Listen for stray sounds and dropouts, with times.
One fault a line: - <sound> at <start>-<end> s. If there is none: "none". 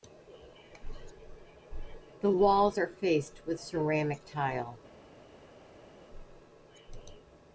none